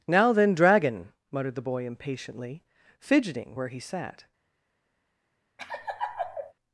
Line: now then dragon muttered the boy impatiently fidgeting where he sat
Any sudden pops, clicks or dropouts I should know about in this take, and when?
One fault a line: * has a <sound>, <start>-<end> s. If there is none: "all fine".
* has a laugh, 5.6-6.5 s